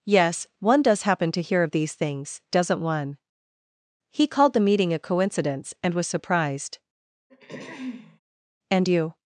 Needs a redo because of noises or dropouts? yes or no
yes